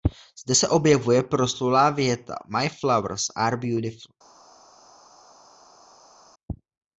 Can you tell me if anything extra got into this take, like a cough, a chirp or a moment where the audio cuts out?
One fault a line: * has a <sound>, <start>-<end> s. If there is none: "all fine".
all fine